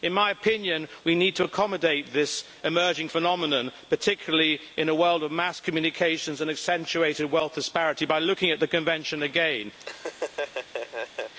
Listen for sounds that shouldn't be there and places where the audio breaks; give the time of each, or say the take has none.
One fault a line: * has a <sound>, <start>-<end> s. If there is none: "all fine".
* has a laugh, 9.8-11.3 s